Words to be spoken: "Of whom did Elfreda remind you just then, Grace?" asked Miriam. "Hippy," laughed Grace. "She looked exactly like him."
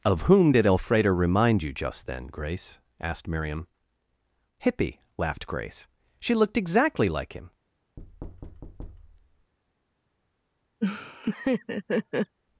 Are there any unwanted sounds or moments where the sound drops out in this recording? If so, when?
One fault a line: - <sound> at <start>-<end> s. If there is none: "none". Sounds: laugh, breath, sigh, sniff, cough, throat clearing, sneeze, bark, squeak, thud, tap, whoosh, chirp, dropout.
- thud at 8.0-9.5 s
- laugh at 10.8-12.4 s